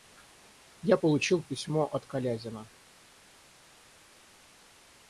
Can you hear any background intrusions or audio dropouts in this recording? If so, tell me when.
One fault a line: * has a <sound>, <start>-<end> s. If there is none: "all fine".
all fine